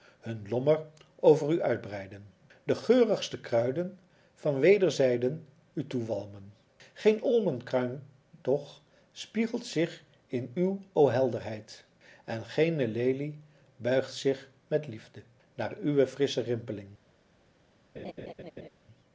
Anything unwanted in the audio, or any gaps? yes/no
yes